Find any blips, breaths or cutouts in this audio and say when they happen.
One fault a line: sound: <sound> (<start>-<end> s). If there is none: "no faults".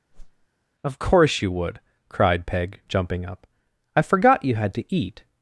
sound: whoosh (0.1-0.5 s)